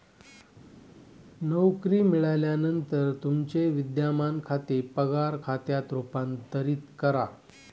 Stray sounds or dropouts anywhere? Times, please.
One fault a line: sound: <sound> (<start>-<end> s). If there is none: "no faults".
no faults